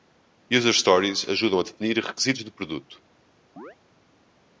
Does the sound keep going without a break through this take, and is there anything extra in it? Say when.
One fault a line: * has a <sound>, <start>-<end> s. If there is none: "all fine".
* has a chirp, 3.6-3.8 s